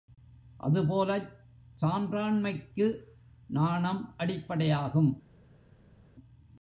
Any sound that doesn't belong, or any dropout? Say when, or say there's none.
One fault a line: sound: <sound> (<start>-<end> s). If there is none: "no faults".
no faults